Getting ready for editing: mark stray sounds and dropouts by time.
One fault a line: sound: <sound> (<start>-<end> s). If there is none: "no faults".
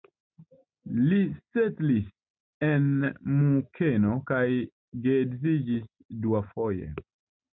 no faults